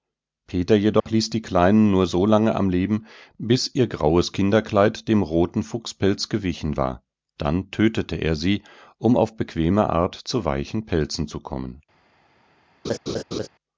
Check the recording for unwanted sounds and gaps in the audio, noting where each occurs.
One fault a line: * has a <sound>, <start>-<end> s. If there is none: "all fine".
* has a dropout, 1.0-1.1 s
* has a laugh, 12.8-13.5 s